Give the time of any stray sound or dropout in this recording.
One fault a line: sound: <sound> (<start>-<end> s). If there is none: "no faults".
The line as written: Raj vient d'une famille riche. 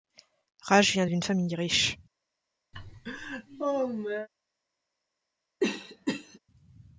sound: laugh (2.7-4.3 s)
sound: cough (5.6-6.4 s)